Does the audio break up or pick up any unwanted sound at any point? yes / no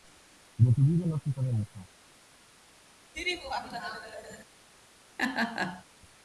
yes